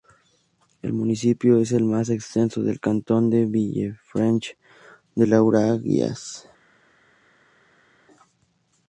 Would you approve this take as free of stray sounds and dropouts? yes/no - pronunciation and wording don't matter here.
yes